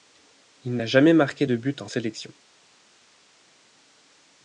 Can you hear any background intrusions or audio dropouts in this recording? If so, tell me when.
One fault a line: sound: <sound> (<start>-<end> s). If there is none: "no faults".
no faults